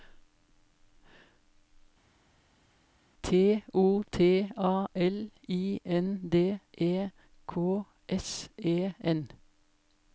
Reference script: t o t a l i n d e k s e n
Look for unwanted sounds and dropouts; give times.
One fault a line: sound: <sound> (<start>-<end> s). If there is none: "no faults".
no faults